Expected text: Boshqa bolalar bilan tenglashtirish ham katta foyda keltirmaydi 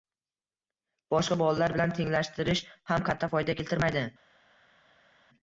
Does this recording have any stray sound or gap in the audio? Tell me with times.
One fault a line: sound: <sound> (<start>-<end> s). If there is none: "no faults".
no faults